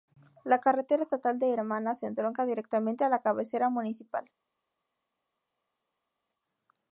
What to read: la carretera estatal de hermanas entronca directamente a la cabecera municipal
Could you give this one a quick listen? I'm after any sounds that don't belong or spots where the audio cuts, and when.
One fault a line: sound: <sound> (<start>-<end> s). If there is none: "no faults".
no faults